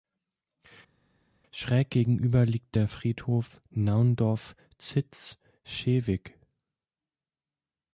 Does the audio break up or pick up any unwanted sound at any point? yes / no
no